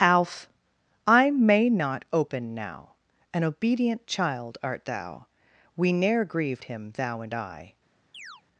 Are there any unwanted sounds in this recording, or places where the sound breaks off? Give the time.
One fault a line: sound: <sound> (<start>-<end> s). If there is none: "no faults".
sound: chirp (8.1-8.4 s)